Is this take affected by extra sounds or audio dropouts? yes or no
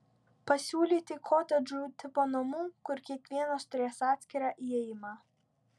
no